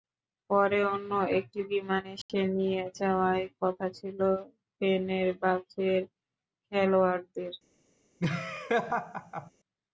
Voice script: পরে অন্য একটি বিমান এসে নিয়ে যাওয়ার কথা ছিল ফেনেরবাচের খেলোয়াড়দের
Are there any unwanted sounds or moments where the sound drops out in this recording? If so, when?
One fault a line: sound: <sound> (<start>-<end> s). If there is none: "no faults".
sound: dropout (2.2-2.3 s)
sound: laugh (8.2-9.5 s)